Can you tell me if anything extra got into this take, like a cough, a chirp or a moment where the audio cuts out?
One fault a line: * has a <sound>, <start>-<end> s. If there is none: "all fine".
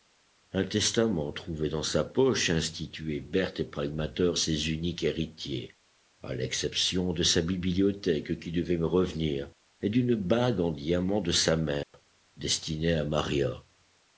* has a dropout, 11.8-11.9 s